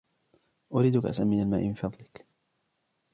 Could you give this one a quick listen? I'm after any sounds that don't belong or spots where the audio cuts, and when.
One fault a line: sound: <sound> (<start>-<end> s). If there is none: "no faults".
no faults